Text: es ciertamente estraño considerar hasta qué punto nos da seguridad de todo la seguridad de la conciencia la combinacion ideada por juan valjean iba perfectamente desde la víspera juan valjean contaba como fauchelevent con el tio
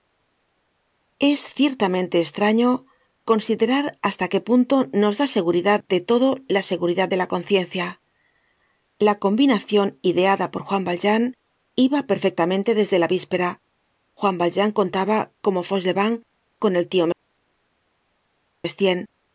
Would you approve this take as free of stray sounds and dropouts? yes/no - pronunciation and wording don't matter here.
yes